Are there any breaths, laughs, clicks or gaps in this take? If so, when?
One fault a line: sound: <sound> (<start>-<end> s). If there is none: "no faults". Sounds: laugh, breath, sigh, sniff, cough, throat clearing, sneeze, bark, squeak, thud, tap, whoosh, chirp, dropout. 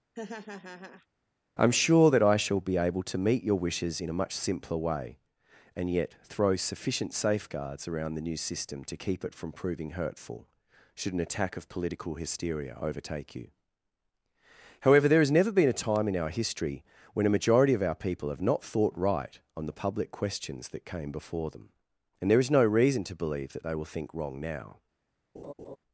sound: laugh (0.1-1.1 s)
sound: laugh (25.3-25.8 s)